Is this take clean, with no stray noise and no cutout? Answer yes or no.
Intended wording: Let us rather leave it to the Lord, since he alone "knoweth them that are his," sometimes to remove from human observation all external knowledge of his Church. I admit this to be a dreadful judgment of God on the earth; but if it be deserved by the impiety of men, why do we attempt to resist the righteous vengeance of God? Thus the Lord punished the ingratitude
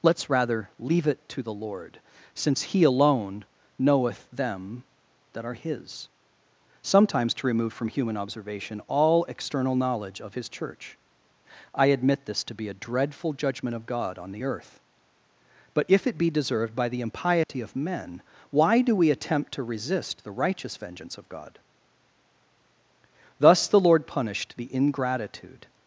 no